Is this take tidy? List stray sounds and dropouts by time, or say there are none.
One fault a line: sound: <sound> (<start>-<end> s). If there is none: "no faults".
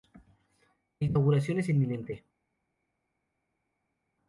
no faults